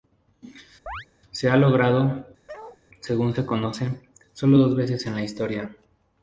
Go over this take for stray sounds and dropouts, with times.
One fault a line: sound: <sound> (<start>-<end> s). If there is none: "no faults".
sound: chirp (0.9-1.1 s)
sound: bark (2.5-2.8 s)